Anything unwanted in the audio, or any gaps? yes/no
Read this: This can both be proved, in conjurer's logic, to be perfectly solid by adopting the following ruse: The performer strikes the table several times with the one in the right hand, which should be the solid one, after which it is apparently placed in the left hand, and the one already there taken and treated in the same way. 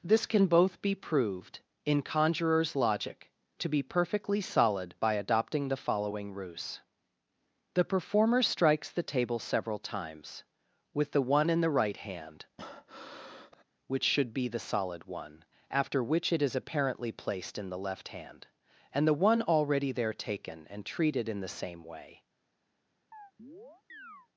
yes